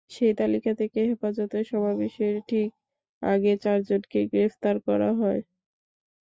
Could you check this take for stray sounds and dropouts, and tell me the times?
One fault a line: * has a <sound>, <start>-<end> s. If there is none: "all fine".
all fine